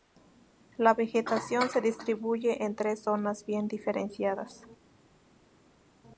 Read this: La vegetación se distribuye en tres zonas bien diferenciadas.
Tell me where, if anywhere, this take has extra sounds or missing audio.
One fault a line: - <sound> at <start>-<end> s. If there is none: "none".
none